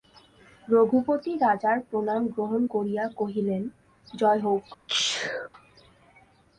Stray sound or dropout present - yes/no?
yes